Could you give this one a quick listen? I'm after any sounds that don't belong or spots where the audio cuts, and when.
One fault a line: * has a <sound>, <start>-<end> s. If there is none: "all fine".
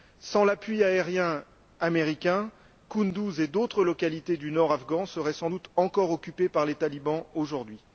all fine